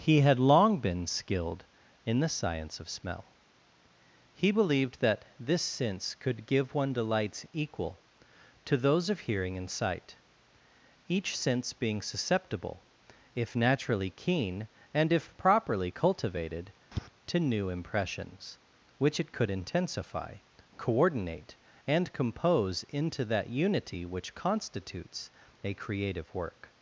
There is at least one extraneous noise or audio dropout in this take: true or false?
true